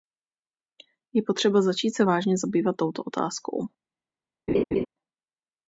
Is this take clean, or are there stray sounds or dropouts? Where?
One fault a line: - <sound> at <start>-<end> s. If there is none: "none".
- laugh at 4.5-4.9 s